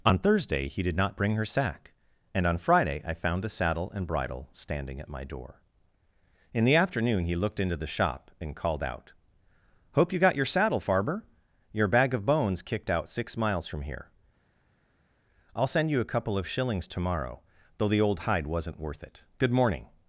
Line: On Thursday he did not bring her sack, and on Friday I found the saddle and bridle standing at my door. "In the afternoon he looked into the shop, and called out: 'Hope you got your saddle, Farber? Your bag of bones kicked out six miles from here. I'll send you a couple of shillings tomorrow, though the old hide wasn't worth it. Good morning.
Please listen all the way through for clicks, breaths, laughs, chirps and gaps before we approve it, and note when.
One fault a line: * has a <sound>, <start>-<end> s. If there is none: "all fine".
all fine